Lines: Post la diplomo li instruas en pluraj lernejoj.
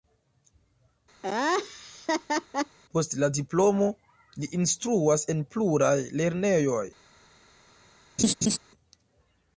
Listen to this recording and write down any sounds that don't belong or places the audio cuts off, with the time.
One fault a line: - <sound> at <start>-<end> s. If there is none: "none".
- laugh at 1.2-2.8 s
- laugh at 8.2-8.6 s